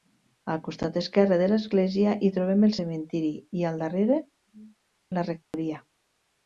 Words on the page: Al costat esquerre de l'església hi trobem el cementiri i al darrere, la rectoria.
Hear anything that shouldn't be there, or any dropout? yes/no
yes